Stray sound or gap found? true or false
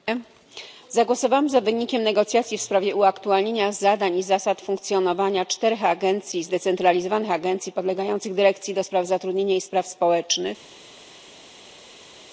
false